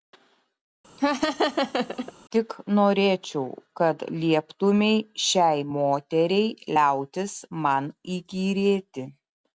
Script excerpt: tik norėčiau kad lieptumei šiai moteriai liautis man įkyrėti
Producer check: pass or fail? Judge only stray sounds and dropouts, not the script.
fail